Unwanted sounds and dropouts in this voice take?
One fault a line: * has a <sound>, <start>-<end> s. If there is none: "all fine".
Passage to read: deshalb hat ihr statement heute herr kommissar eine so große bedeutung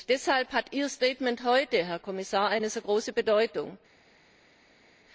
all fine